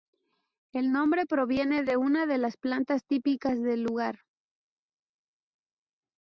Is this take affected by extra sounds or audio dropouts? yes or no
no